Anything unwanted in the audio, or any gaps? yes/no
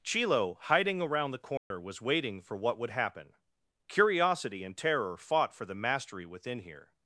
yes